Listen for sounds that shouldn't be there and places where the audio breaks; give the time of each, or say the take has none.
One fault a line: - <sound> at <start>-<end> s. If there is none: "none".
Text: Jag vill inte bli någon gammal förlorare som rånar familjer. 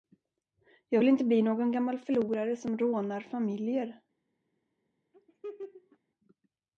- laugh at 5.1-6.0 s